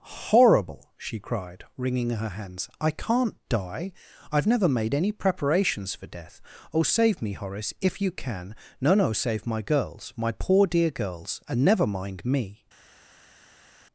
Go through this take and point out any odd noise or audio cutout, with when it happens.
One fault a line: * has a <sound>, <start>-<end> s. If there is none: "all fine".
all fine